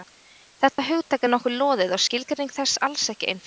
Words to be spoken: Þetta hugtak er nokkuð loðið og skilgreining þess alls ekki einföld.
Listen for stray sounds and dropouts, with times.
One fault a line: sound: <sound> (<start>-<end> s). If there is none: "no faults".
sound: dropout (0.7-0.8 s)